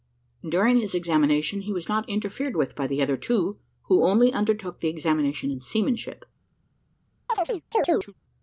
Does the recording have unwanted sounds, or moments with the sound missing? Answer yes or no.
yes